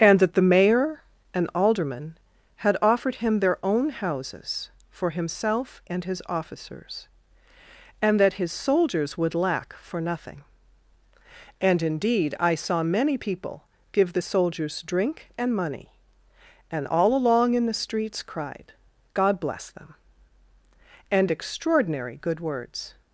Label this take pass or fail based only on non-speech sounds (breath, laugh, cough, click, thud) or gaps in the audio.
pass